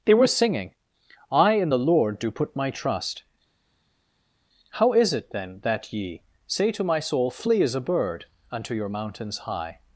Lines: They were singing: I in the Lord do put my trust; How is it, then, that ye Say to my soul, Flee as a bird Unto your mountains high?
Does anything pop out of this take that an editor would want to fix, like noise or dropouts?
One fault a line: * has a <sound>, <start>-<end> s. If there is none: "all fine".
all fine